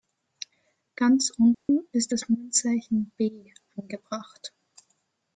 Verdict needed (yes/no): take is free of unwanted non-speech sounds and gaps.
no